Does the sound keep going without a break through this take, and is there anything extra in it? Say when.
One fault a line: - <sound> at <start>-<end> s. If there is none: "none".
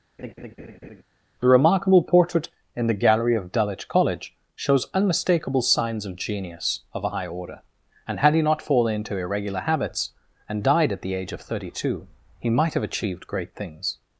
- laugh at 0.2-1.0 s